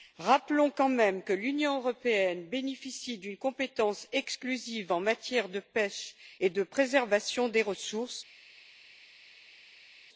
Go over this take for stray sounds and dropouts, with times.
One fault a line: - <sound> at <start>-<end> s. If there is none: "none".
none